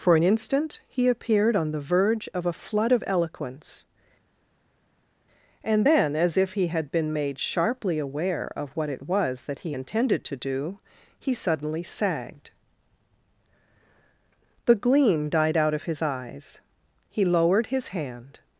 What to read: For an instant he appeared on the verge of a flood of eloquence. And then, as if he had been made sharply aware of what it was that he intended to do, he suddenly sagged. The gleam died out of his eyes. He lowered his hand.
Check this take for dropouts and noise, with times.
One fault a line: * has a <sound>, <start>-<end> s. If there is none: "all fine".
all fine